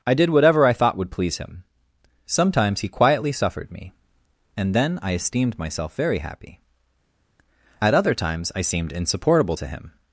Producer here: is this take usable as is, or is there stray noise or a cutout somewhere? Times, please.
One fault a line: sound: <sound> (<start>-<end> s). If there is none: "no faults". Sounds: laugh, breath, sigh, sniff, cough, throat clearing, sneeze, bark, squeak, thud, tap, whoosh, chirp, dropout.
no faults